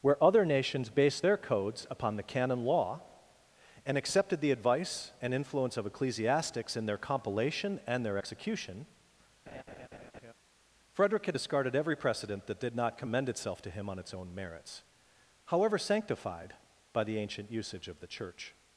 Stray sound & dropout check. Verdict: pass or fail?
fail